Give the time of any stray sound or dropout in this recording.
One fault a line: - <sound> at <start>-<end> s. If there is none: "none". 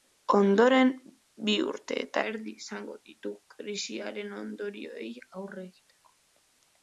none